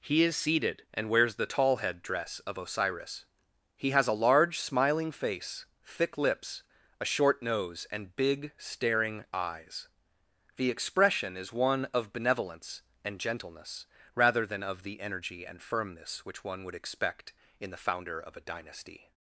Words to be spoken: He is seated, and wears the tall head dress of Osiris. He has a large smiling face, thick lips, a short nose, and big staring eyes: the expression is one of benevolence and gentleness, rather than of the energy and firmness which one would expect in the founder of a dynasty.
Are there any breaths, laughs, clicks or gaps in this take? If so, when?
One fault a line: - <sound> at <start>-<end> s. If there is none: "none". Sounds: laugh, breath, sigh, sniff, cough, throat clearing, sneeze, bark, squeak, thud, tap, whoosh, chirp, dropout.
none